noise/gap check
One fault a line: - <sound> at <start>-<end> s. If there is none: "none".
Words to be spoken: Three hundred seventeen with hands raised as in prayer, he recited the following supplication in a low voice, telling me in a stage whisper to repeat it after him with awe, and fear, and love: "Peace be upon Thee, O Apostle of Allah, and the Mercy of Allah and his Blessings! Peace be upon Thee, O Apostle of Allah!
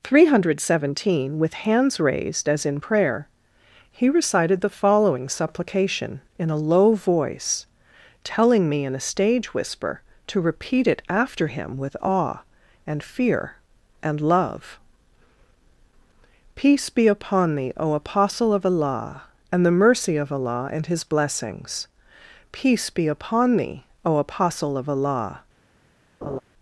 - laugh at 26.2-26.4 s